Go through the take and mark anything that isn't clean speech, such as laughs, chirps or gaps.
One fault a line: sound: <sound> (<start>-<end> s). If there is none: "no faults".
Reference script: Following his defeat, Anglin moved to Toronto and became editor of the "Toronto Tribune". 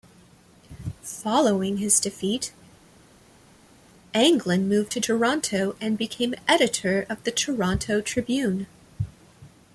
no faults